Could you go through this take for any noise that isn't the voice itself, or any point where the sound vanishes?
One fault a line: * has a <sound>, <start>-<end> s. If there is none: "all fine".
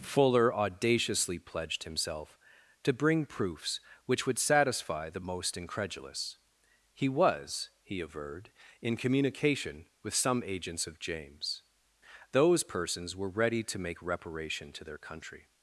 all fine